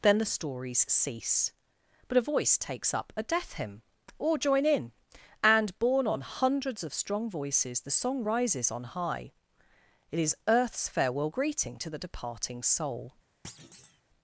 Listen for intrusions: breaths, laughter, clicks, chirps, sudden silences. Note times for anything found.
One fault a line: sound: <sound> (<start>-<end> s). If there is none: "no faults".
sound: thud (13.4-14.0 s)